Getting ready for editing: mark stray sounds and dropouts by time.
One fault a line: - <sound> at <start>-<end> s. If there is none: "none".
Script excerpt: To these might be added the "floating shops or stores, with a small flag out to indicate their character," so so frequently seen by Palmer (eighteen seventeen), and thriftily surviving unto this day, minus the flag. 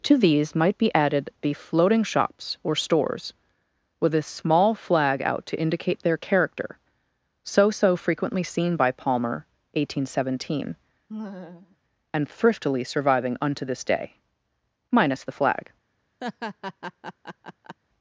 - laugh at 11.1-11.8 s
- laugh at 16.2-17.8 s